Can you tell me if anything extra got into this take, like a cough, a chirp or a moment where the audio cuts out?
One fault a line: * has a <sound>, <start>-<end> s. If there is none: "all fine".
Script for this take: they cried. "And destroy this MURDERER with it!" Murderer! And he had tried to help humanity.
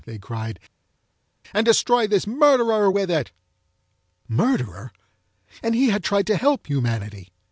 all fine